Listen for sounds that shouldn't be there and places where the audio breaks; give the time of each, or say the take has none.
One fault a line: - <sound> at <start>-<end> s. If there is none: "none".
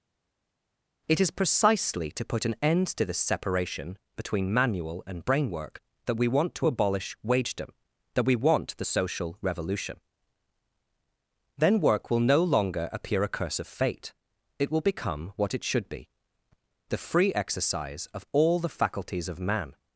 none